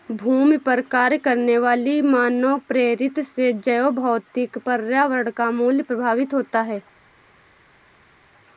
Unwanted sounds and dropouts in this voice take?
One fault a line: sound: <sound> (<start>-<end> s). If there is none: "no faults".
no faults